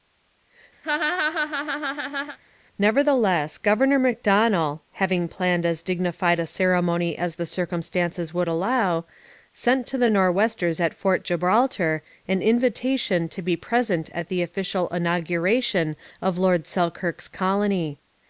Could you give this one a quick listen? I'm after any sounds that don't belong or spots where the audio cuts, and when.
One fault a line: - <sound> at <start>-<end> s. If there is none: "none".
- laugh at 0.8-2.4 s